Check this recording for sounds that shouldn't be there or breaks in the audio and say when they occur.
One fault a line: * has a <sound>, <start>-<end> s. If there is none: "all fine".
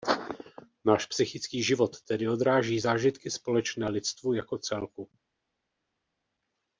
all fine